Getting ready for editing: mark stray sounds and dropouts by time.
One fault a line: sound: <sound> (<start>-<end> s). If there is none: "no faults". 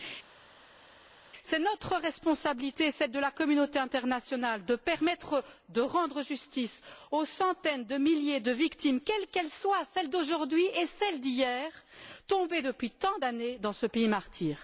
no faults